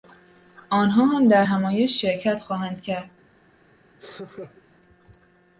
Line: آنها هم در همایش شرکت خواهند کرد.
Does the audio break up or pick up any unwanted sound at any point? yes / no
yes